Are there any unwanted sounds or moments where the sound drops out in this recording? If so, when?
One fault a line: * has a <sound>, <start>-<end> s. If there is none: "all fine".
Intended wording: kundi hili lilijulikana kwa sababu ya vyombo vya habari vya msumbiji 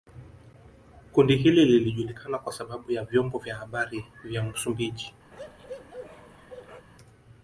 * has a bark, 5.3-6.9 s